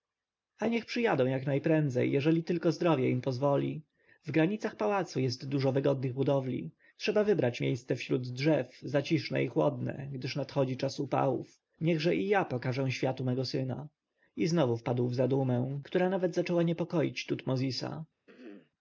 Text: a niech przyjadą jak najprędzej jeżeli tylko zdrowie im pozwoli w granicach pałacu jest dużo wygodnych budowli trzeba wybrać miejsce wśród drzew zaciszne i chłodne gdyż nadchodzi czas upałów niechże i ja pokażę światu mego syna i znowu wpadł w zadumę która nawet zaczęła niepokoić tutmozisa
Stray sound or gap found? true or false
true